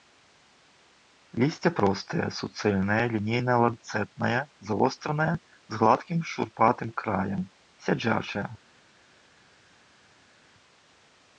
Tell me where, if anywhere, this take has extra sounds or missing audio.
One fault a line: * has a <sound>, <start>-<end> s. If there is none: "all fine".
all fine